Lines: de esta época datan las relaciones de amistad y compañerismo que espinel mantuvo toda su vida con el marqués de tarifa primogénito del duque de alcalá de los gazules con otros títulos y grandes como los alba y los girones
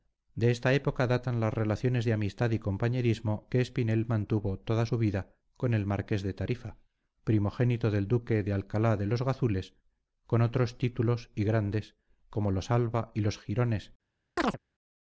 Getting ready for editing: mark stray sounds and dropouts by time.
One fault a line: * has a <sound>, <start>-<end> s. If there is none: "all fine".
* has a chirp, 14.4-14.6 s